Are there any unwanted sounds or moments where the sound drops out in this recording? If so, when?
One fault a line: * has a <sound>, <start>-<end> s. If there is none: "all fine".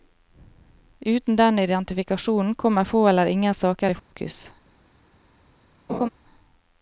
* has a dropout, 4.0-4.1 s
* has a laugh, 5.9-6.1 s